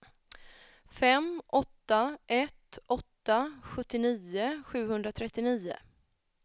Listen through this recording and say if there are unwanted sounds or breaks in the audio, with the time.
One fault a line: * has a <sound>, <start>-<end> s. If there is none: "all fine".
all fine